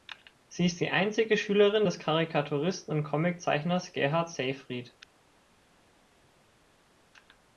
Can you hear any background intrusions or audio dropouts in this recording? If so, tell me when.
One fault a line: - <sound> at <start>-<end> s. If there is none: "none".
none